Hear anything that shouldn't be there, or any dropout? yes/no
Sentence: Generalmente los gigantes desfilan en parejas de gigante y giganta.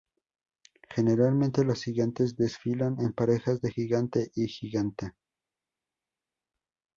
no